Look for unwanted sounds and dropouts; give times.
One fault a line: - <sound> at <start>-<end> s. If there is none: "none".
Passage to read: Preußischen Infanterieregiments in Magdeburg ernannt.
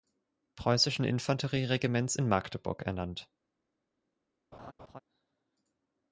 - laugh at 4.5-5.0 s